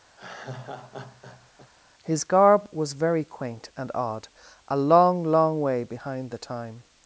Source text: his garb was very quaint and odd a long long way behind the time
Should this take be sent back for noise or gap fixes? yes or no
yes